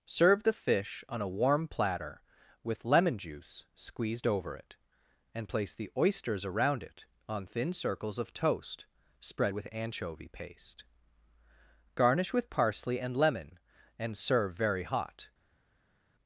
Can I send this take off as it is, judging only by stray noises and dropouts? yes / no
yes